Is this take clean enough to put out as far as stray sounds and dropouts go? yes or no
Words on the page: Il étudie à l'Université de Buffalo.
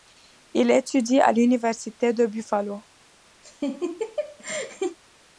no